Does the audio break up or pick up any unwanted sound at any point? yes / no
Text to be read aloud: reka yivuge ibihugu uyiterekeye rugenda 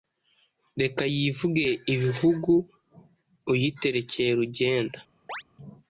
yes